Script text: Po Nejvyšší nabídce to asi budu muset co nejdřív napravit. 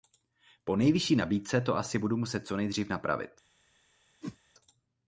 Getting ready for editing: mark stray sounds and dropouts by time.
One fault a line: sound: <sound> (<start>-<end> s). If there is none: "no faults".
sound: whoosh (4.2-4.4 s)